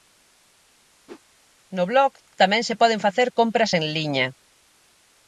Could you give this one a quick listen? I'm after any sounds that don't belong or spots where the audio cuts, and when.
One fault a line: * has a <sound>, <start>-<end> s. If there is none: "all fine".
* has a whoosh, 1.1-1.2 s